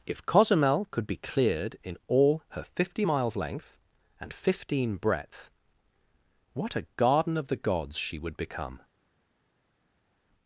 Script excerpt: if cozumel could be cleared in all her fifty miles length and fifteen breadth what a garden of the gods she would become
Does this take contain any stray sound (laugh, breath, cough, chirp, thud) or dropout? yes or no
no